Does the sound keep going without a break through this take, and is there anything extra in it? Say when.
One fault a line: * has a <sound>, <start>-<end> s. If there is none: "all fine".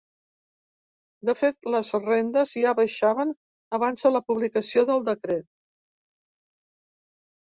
all fine